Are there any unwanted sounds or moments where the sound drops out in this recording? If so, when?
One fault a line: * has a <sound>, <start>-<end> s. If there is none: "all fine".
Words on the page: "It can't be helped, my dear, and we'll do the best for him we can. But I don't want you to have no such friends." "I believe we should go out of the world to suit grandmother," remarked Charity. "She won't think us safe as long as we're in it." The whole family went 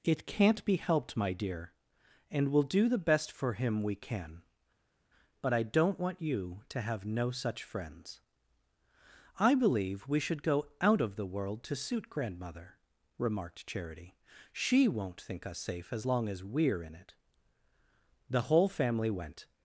all fine